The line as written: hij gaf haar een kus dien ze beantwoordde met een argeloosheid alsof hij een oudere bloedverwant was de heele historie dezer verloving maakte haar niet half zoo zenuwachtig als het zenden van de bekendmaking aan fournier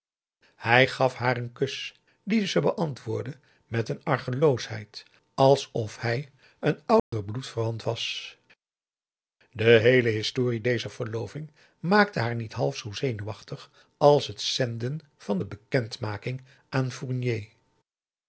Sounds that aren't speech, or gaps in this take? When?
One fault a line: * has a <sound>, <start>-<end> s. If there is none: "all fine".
* has a dropout, 7.0-7.1 s